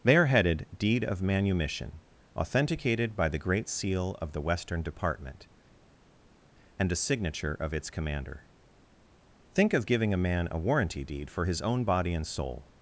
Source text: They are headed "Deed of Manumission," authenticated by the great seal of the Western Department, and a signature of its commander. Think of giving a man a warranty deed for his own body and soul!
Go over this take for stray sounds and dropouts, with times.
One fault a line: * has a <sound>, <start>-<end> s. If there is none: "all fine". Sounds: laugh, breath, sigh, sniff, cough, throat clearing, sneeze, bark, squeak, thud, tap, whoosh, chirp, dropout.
all fine